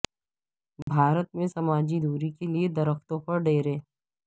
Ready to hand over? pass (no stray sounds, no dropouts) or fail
fail